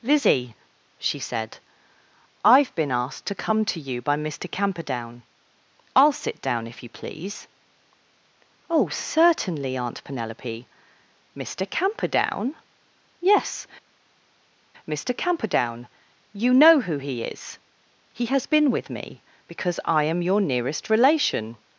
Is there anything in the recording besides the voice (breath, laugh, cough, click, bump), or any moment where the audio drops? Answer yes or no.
no